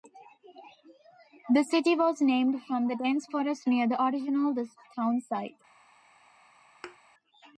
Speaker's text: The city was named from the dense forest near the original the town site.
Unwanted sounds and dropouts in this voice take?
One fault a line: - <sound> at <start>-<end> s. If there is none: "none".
- thud at 6.8-7.0 s